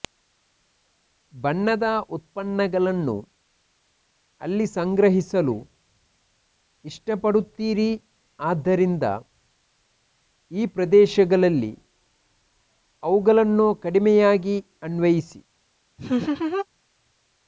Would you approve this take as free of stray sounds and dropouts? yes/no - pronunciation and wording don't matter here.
no